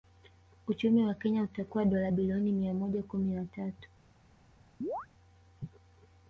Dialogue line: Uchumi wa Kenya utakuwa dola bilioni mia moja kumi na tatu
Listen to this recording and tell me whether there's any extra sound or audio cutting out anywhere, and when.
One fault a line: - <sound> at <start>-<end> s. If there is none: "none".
- chirp at 4.8-5.1 s